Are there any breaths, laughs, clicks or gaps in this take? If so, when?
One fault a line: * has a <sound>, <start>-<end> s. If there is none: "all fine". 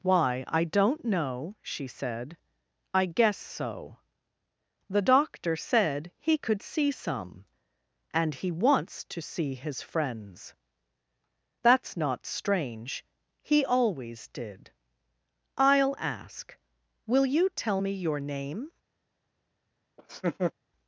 * has a laugh, 20.0-20.5 s